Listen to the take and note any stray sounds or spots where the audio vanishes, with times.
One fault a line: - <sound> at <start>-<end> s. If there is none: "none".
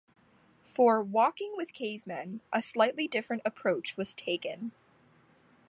none